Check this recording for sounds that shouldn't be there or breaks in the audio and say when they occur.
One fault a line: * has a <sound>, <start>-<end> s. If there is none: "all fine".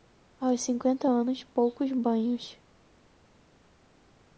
all fine